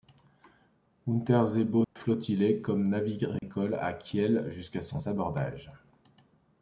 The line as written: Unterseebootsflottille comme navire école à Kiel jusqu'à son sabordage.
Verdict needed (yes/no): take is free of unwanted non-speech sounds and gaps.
no